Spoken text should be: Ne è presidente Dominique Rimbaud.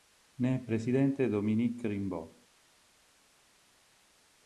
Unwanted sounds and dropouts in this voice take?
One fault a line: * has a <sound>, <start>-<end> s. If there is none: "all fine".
all fine